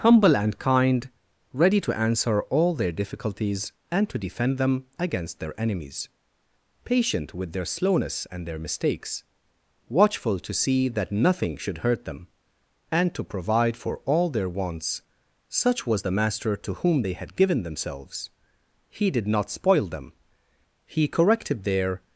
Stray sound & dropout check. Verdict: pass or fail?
pass